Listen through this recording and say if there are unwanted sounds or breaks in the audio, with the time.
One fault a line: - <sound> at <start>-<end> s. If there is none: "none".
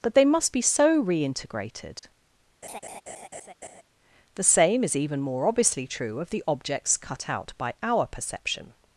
- laugh at 2.6-3.8 s